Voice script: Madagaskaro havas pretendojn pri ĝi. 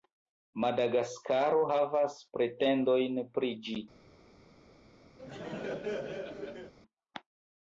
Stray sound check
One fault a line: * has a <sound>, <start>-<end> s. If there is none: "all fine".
* has a laugh, 5.2-6.7 s